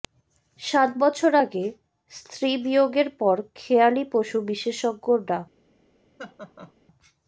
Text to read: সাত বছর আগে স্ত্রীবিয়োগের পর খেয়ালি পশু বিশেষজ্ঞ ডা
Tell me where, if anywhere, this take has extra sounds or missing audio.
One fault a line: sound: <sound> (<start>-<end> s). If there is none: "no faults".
sound: laugh (6.2-6.7 s)